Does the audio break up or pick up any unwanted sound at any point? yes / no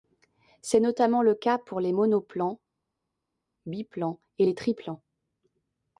no